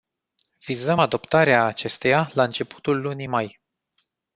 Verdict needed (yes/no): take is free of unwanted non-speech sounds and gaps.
yes